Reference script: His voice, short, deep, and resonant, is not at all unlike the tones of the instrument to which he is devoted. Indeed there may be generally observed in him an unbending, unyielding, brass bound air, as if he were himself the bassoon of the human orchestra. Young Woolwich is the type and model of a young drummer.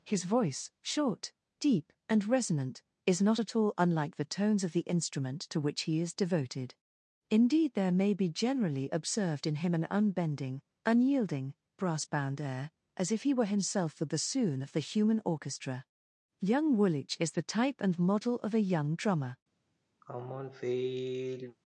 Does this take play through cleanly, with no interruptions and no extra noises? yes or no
no